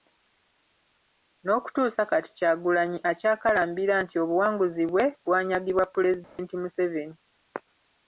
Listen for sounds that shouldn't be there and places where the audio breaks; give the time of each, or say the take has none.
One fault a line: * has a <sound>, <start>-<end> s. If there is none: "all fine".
* has a dropout, 6.2-6.4 s